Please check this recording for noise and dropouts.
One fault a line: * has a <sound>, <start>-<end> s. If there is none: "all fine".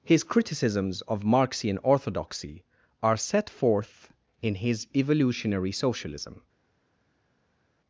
all fine